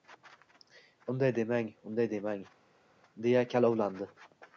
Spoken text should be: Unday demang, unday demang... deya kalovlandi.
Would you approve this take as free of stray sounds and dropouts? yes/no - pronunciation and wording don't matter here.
yes